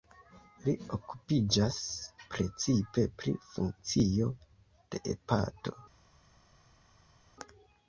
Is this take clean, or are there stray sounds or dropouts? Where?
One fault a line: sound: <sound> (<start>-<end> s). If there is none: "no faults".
no faults